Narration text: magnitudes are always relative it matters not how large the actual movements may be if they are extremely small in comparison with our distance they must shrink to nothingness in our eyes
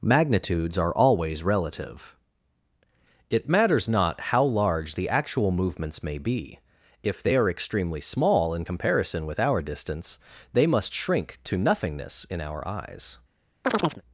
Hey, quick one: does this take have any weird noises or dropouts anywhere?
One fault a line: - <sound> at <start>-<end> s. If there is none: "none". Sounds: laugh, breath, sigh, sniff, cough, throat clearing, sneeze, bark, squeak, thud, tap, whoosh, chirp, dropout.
- chirp at 13.6-14.0 s